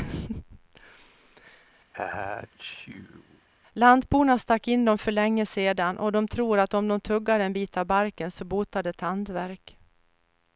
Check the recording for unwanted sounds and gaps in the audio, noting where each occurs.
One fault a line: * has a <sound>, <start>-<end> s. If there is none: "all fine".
* has a sneeze, 1.9-3.5 s